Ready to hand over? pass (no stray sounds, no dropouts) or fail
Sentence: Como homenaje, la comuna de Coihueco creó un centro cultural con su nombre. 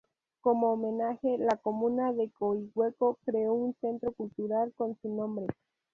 pass